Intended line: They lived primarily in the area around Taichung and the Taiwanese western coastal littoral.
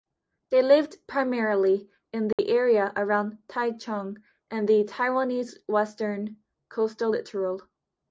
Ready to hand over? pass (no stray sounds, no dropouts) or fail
fail